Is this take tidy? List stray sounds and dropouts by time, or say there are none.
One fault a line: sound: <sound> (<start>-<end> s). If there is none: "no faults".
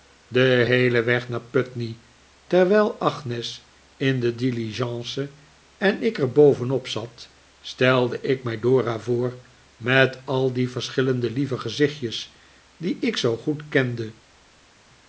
no faults